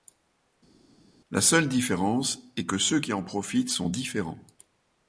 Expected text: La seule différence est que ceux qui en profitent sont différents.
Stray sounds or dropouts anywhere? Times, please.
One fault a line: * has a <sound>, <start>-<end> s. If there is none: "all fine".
all fine